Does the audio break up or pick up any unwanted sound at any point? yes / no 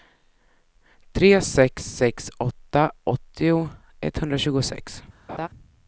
yes